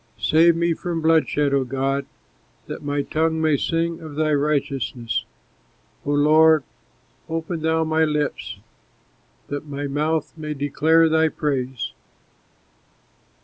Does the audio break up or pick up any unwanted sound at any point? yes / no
no